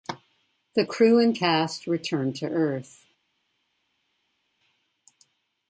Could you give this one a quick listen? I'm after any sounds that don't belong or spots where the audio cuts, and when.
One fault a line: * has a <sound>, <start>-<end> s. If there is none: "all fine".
all fine